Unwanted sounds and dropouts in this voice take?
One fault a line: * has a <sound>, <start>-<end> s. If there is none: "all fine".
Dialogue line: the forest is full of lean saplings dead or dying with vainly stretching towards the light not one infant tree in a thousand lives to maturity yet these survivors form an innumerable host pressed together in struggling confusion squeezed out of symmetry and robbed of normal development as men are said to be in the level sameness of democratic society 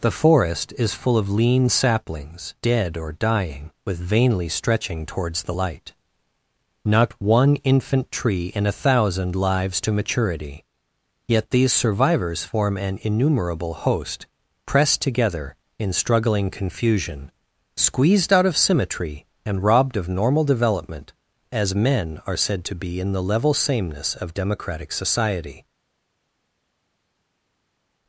all fine